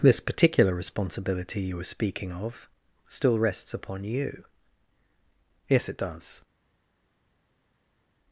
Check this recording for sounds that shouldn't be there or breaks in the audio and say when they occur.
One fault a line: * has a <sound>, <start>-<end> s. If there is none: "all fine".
all fine